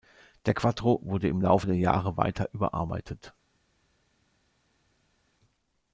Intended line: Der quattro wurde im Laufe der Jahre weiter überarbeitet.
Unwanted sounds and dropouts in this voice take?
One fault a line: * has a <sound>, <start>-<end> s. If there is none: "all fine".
all fine